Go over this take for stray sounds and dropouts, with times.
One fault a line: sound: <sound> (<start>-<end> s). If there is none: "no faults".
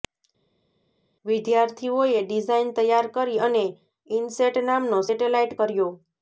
no faults